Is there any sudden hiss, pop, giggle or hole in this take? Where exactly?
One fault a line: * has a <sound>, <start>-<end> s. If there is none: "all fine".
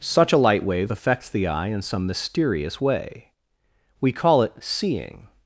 all fine